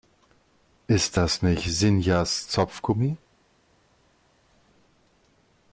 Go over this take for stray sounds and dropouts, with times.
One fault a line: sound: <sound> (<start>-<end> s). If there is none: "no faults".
no faults